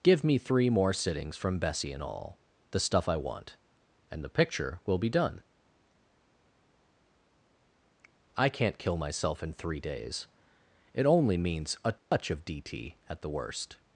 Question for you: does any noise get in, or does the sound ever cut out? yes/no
yes